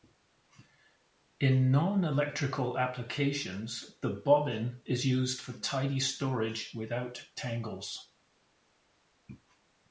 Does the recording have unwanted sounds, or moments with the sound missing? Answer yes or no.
no